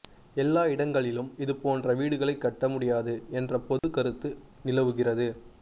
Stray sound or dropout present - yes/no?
yes